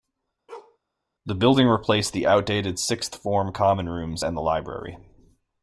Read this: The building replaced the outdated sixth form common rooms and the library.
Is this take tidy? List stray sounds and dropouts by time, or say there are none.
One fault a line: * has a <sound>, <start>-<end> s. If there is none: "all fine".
* has a bark, 0.5-0.8 s